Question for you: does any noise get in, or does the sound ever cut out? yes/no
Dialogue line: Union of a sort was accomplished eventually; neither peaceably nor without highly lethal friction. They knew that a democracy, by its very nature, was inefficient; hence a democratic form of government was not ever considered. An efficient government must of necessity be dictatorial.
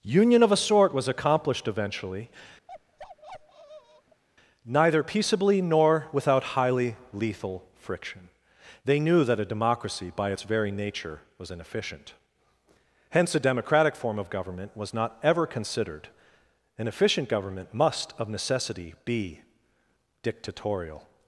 yes